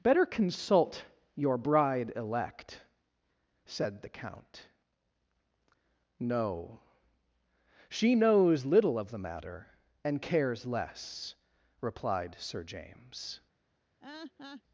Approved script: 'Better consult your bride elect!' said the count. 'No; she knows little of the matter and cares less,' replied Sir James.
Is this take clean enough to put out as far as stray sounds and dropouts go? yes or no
no